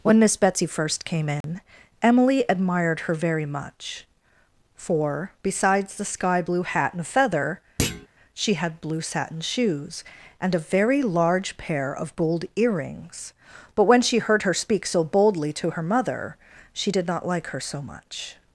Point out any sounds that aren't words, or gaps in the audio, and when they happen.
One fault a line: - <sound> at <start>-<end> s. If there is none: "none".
- dropout at 1.4-1.4 s
- thud at 7.8-8.1 s